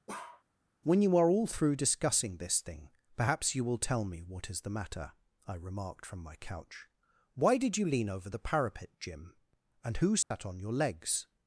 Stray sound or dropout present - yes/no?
yes